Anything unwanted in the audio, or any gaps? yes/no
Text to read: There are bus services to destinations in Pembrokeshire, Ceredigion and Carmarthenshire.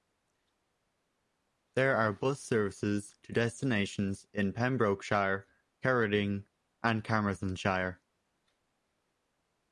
no